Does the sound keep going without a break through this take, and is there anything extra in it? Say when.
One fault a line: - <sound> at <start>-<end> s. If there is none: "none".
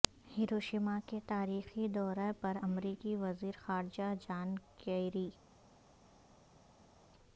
none